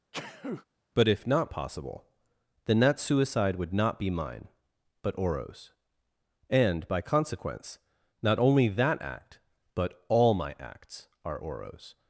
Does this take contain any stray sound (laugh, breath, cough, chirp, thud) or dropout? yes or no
yes